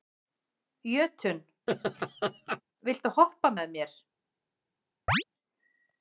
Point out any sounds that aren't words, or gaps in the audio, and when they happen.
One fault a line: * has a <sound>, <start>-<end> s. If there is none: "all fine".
* has a laugh, 1.7-2.6 s
* has a chirp, 5.1-5.2 s